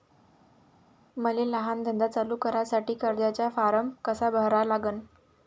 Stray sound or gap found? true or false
false